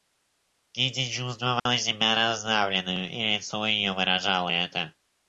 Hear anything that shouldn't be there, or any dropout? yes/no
yes